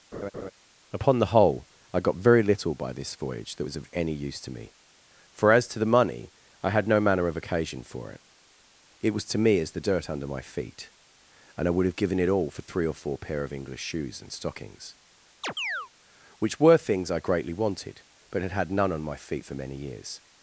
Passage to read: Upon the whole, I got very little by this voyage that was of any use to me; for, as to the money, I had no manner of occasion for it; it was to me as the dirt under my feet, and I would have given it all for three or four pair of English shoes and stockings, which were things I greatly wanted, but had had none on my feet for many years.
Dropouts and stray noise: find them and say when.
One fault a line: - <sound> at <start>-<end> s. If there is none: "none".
- laugh at 0.1-0.5 s
- chirp at 15.4-15.9 s